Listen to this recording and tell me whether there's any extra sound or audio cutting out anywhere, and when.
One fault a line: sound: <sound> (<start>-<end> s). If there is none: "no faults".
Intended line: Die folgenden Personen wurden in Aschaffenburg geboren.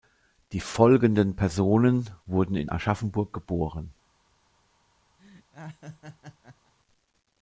sound: laugh (5.2-6.7 s)